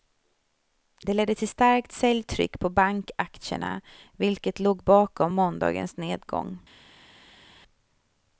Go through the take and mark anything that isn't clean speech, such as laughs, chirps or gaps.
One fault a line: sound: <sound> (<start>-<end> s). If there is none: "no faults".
no faults